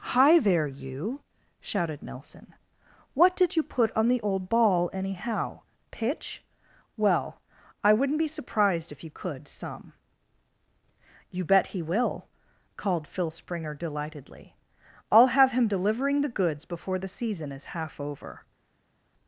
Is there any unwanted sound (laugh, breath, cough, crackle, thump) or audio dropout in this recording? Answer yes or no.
no